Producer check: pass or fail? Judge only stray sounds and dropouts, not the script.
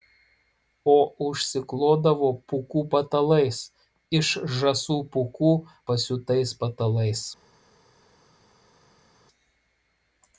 pass